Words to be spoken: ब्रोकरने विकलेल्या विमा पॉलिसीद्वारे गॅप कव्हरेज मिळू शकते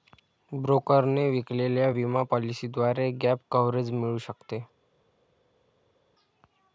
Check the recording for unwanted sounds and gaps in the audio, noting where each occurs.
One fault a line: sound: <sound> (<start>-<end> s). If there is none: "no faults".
no faults